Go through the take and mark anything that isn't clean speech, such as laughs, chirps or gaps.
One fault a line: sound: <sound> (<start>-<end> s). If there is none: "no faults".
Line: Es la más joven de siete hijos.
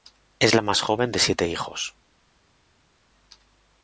no faults